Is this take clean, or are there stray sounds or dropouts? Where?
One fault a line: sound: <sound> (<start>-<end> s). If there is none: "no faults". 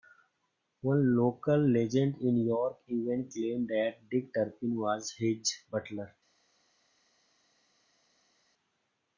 no faults